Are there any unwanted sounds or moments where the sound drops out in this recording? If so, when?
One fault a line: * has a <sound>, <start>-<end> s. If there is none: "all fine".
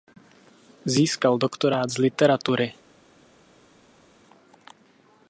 all fine